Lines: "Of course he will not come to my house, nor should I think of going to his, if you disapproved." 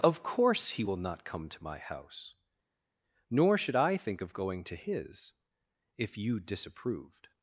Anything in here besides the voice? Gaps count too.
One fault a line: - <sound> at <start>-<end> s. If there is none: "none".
none